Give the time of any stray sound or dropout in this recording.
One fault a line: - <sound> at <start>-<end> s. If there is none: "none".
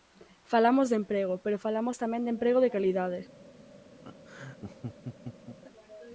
- laugh at 4.0-5.6 s